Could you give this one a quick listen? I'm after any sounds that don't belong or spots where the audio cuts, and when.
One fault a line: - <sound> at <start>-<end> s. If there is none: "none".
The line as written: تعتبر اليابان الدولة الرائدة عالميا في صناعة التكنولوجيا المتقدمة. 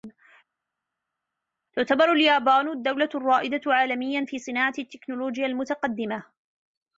none